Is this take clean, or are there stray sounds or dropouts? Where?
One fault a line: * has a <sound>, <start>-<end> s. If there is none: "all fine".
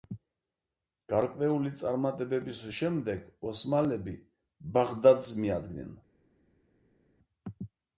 all fine